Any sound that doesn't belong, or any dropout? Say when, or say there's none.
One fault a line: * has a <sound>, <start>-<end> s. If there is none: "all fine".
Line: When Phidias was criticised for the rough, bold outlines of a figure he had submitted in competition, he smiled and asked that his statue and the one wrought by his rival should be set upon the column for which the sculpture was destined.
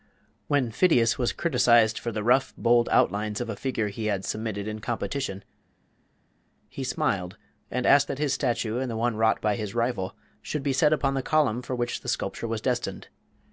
all fine